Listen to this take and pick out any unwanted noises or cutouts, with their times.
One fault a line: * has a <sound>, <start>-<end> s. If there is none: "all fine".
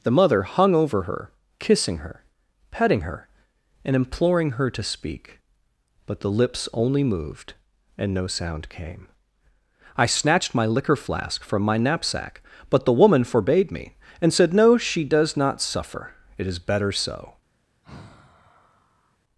* has a sigh, 17.8-19.2 s